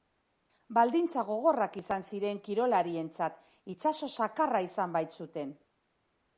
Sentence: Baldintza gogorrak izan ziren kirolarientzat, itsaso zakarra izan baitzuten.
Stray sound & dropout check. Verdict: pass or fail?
pass